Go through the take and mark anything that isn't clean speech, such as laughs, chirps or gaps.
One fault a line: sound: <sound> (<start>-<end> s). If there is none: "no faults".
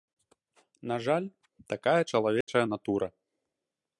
sound: dropout (2.4-2.5 s)